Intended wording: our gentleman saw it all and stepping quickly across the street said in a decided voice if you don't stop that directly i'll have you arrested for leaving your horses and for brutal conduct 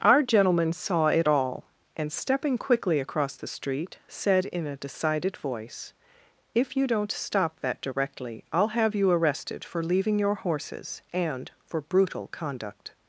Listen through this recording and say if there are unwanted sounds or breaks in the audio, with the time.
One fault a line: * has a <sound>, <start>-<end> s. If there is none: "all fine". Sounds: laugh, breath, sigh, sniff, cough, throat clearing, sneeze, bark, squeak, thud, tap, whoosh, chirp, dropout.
all fine